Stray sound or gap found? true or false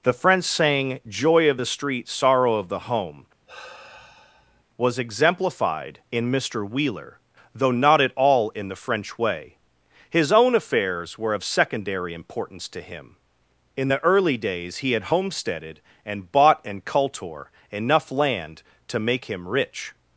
true